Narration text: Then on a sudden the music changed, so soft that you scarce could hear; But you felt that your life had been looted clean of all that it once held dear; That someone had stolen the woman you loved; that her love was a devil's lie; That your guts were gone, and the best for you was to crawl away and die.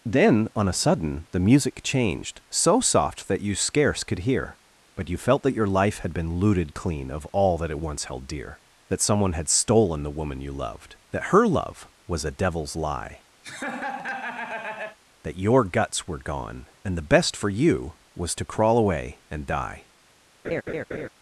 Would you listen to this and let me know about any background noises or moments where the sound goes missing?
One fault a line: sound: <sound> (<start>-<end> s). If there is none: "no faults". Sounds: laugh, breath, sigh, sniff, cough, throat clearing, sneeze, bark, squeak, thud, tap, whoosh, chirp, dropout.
sound: laugh (13.4-15.0 s)
sound: laugh (20.4-21.1 s)